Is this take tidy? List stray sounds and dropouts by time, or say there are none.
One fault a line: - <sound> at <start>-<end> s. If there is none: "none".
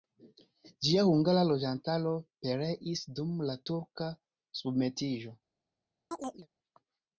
- chirp at 6.1-6.5 s